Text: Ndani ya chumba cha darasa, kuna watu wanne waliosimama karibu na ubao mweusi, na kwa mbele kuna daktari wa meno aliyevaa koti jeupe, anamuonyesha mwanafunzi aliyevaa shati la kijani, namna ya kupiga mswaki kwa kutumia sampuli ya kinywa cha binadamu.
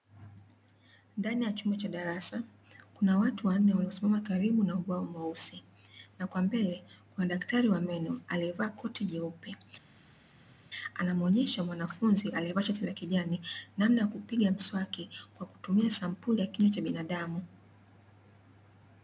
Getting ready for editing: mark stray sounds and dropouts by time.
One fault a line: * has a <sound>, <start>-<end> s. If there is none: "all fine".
all fine